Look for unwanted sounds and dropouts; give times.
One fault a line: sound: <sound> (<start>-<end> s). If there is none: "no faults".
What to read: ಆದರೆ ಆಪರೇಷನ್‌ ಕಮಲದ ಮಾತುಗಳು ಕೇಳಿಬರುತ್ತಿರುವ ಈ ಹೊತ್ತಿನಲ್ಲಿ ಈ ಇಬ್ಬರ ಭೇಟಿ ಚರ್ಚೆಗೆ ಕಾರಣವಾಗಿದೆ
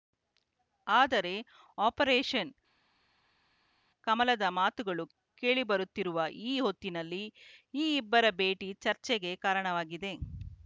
no faults